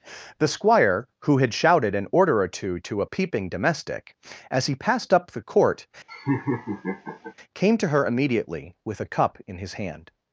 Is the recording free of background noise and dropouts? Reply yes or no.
no